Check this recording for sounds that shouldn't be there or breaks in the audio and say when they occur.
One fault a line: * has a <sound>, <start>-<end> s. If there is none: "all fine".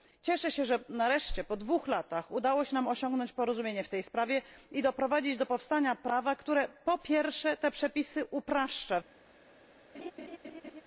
* has a laugh, 9.9-10.8 s